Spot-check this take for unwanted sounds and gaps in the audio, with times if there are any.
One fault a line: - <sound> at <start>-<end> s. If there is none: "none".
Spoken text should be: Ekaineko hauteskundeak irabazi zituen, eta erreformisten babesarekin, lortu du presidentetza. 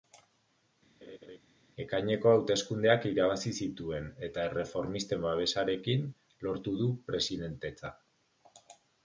- laugh at 1.0-1.4 s